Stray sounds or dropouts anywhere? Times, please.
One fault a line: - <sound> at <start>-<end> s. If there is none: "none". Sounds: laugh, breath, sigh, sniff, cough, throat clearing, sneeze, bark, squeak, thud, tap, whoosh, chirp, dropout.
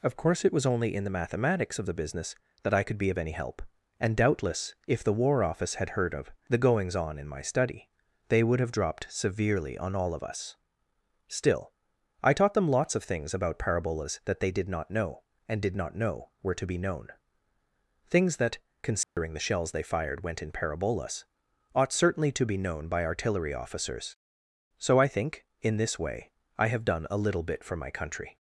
- dropout at 19.0-19.2 s